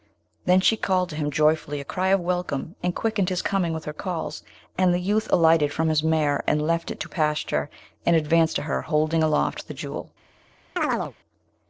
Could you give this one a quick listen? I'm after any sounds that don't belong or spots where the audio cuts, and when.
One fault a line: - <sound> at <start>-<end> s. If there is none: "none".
- chirp at 10.8-11.1 s